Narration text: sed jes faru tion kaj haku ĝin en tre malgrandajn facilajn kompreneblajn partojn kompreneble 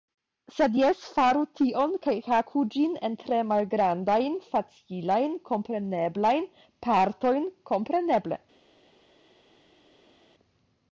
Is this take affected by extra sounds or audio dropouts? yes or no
no